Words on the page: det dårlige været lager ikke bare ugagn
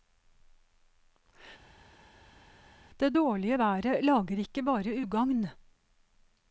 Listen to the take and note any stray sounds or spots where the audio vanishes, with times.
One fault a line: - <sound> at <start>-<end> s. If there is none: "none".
none